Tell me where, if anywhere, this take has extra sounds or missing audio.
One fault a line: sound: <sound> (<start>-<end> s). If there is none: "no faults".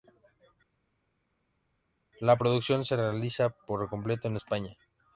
no faults